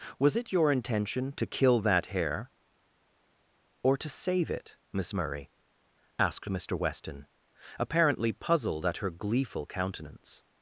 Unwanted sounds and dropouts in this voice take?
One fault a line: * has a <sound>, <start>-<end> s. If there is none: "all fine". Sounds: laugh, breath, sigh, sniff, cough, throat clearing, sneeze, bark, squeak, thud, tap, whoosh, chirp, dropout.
all fine